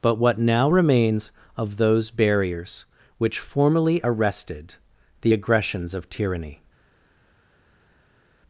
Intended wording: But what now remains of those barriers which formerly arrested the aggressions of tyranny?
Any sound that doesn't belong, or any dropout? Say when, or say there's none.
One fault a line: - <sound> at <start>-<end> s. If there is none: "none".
none